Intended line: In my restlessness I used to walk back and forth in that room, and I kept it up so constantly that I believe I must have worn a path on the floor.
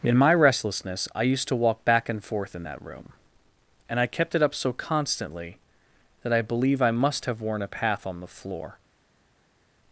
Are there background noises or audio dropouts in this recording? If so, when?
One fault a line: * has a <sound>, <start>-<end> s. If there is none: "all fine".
all fine